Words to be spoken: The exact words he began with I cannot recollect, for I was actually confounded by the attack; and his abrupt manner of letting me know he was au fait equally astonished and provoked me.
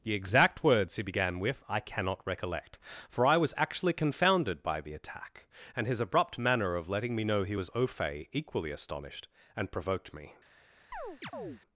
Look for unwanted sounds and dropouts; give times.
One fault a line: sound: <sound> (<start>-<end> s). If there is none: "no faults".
sound: chirp (10.9-11.6 s)